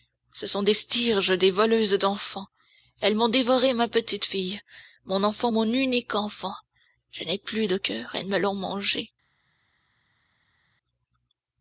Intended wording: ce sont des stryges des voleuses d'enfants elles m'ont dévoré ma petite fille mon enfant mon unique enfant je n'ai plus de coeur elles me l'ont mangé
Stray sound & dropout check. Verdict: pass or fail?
pass